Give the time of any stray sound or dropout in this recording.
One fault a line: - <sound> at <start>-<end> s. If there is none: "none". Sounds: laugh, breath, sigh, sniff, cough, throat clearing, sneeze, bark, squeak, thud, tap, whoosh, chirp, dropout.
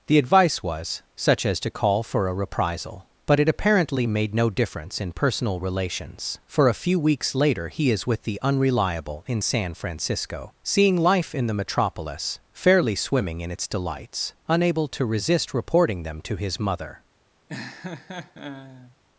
- laugh at 17.5-19.0 s